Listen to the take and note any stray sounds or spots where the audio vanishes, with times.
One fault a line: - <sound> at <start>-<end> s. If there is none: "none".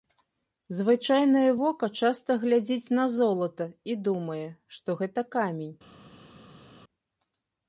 none